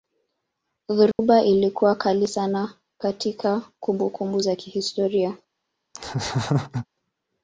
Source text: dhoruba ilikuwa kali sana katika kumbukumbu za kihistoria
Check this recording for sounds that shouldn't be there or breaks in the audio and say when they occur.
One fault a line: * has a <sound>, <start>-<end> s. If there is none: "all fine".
* has a dropout, 1.1-1.2 s
* has a laugh, 5.9-6.9 s